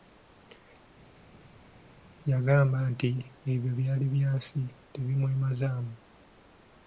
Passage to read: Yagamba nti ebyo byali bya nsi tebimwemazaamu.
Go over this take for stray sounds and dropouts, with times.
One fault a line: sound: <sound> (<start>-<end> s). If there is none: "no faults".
no faults